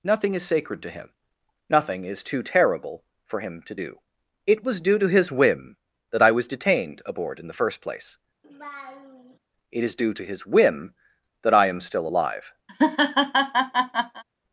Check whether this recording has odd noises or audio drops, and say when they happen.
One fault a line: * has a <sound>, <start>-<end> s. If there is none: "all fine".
* has a laugh, 8.4-9.4 s
* has a laugh, 12.7-14.2 s